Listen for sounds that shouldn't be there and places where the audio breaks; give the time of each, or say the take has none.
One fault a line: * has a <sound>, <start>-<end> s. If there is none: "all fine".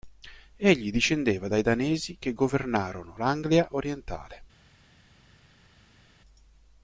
all fine